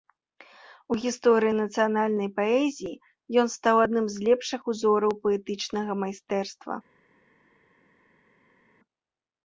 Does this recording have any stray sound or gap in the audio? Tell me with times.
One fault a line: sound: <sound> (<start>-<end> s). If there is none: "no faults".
no faults